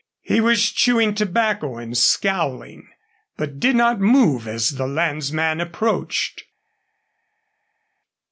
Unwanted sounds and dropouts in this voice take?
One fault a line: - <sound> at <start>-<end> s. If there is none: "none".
none